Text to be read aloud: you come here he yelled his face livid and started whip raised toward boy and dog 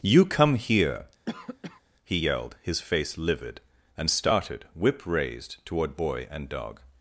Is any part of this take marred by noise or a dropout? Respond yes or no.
yes